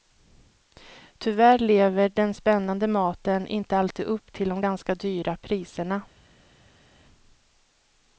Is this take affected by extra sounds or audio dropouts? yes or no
no